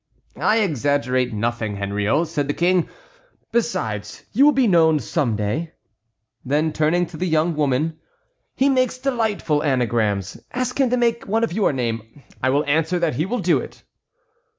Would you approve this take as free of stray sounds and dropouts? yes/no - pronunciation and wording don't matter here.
yes